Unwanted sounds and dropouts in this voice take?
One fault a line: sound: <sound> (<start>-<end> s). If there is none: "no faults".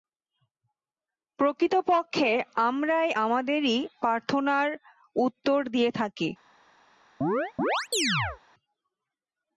sound: chirp (7.2-8.4 s)